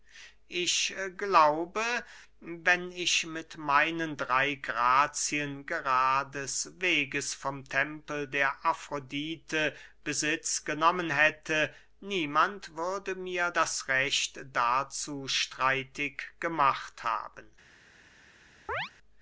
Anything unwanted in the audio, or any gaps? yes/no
yes